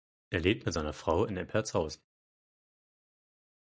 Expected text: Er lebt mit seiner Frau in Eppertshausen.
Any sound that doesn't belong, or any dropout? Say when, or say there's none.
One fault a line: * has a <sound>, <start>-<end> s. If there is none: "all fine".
all fine